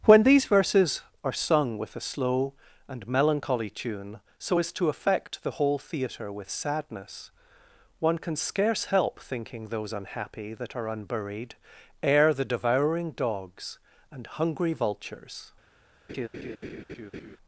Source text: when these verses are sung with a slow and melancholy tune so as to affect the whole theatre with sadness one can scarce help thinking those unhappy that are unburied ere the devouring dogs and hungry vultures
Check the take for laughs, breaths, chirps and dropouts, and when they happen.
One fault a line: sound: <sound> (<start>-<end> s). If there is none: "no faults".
sound: laugh (16.1-17.4 s)